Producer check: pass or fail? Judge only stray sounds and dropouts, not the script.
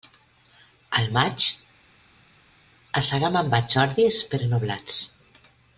pass